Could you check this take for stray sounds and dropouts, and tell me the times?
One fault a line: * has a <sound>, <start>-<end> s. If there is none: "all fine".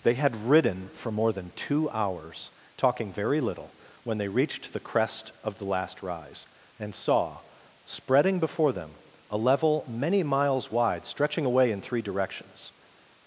all fine